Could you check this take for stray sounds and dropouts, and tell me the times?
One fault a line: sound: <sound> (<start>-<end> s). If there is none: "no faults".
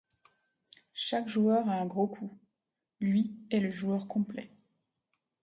no faults